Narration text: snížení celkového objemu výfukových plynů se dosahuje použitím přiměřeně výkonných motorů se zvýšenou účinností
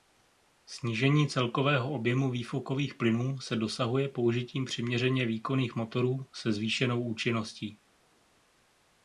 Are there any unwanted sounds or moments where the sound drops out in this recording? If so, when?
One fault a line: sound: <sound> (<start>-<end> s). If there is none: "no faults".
no faults